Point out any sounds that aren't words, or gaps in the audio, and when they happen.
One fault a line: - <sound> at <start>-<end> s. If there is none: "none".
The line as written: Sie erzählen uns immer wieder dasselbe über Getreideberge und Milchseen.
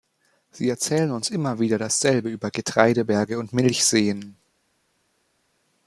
none